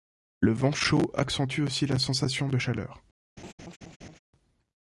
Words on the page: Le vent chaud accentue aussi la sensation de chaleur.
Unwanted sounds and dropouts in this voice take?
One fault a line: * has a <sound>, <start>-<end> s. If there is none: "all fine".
* has a laugh, 3.4-4.2 s